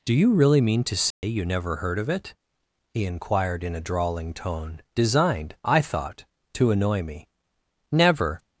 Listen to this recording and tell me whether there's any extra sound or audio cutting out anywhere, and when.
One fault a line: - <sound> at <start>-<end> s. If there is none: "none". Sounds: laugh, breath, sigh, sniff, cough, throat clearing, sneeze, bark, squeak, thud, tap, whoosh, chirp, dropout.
- dropout at 1.1-1.2 s